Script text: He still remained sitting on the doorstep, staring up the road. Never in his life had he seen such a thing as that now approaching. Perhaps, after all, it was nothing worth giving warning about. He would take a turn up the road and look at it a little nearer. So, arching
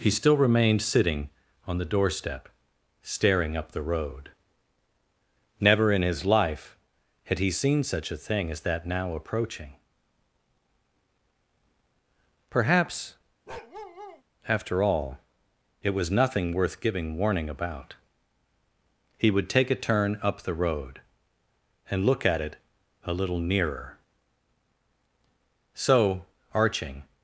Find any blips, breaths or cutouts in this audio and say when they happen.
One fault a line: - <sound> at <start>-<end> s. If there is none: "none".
- bark at 13.5-14.2 s